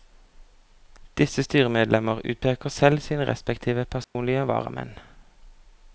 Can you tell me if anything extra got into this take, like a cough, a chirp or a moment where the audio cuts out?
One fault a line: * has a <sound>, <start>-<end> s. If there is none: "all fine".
* has a dropout, 4.0-4.1 s